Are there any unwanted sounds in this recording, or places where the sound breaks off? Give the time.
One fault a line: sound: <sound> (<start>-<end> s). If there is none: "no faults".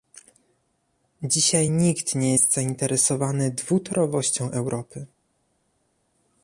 no faults